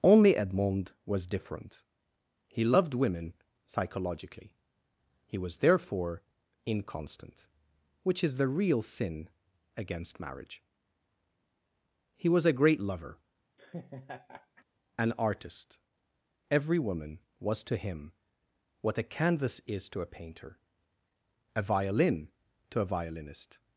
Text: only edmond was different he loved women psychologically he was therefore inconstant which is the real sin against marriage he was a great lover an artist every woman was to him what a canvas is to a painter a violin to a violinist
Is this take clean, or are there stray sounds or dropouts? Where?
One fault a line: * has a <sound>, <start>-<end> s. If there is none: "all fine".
* has a laugh, 13.6-14.6 s